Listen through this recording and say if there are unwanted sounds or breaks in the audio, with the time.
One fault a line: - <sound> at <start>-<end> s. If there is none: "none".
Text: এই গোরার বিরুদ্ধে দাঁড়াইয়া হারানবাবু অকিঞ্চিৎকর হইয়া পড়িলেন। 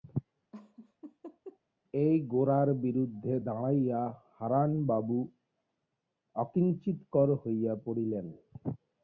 - laugh at 0.5-1.6 s